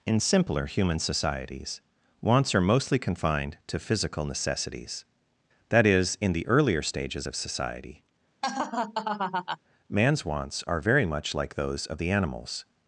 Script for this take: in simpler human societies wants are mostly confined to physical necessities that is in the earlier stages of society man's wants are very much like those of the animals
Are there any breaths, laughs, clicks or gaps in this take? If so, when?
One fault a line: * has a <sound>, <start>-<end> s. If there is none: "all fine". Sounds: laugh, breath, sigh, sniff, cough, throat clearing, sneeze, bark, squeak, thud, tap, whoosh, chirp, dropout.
* has a laugh, 8.4-9.6 s